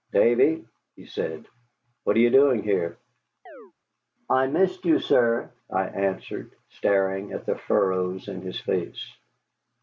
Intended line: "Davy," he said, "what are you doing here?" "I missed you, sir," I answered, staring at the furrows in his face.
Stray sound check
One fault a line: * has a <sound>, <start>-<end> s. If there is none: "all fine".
* has a chirp, 3.5-3.7 s